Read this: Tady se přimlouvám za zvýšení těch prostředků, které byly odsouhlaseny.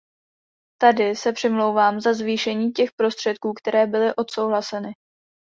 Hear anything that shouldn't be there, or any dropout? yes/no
no